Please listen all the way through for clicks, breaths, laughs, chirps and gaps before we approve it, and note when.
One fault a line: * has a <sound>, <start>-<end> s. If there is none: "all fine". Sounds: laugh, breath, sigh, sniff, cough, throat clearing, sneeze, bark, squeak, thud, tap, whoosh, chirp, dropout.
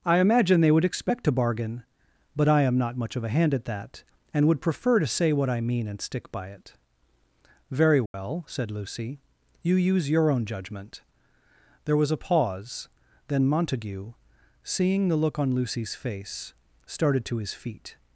* has a dropout, 8.1-8.1 s